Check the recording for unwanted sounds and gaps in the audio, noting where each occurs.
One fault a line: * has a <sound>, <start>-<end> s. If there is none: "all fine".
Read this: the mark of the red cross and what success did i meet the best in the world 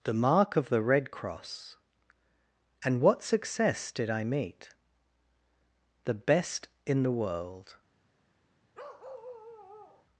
* has a bark, 8.7-10.1 s